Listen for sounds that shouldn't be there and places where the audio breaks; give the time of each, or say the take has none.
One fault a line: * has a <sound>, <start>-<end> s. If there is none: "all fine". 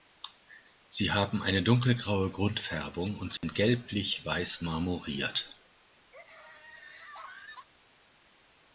* has a dropout, 3.4-3.4 s
* has a laugh, 6.1-7.7 s